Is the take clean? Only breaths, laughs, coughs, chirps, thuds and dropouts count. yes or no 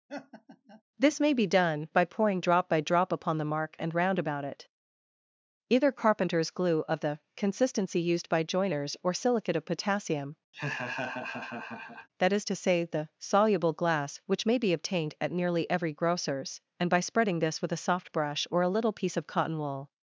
no